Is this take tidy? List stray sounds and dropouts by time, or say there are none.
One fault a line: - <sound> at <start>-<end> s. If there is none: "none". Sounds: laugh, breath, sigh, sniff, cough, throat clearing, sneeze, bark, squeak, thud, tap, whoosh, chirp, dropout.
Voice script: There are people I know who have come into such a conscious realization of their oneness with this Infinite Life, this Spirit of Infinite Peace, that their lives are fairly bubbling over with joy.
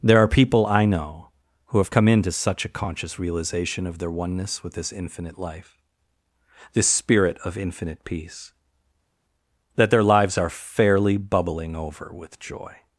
none